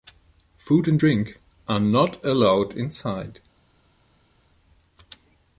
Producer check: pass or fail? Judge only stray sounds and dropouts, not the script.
pass